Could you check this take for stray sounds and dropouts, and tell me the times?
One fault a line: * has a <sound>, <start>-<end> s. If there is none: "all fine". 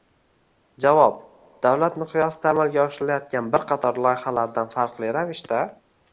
all fine